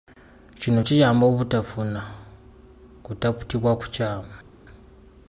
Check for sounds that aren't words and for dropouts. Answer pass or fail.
pass